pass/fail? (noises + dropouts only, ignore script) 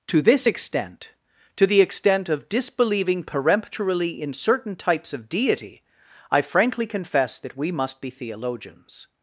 pass